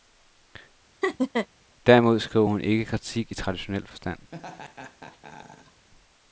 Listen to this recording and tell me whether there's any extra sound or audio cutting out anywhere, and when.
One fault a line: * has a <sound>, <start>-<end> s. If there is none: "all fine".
* has a laugh, 1.0-1.5 s
* has a laugh, 4.3-5.9 s